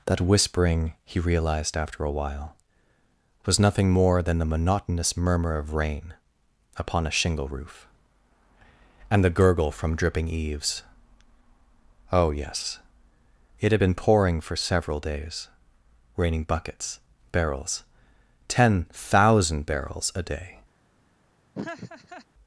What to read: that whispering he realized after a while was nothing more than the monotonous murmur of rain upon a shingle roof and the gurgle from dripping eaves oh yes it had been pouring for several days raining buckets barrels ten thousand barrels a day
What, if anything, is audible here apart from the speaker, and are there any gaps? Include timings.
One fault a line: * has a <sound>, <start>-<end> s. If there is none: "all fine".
* has a laugh, 21.5-22.3 s